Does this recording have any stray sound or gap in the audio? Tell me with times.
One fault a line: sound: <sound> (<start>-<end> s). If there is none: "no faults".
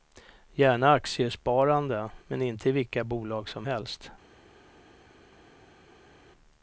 no faults